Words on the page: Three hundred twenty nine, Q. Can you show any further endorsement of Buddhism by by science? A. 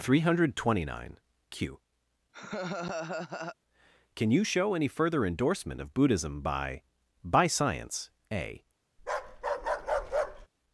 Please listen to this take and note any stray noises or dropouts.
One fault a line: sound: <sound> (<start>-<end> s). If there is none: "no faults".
sound: laugh (2.3-3.6 s)
sound: bark (9.0-10.5 s)